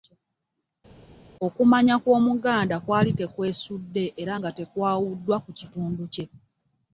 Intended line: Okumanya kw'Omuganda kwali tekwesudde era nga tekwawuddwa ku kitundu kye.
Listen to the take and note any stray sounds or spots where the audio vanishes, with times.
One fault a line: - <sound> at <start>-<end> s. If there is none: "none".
none